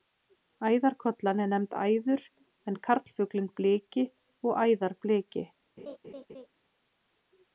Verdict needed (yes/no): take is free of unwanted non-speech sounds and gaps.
no